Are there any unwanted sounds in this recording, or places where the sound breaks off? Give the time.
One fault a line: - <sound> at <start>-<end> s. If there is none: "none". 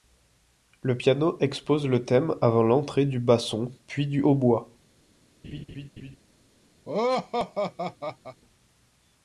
- laugh at 5.4-6.2 s
- laugh at 6.8-8.4 s